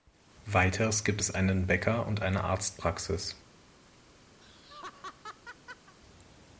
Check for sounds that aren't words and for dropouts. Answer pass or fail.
fail